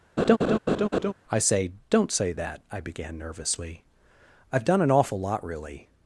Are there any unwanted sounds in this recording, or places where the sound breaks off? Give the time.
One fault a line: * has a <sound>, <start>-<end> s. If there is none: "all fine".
* has a laugh, 0.2-1.1 s